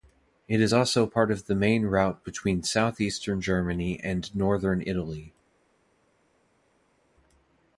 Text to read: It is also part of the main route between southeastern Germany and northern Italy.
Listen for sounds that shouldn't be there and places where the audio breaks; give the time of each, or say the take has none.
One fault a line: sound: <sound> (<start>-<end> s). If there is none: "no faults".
no faults